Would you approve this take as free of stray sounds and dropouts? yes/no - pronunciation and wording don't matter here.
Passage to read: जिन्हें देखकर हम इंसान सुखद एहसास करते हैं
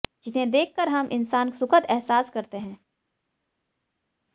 yes